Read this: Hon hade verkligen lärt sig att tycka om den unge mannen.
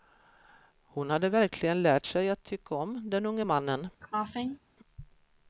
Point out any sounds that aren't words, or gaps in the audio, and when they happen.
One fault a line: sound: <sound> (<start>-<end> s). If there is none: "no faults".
sound: cough (4.0-4.6 s)